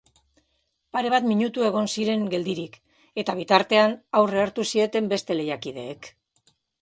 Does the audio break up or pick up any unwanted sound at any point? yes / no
no